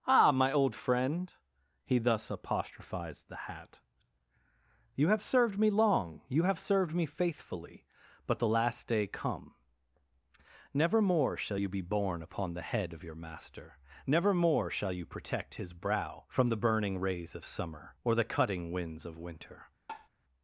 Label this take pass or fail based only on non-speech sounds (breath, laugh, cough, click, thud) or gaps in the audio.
fail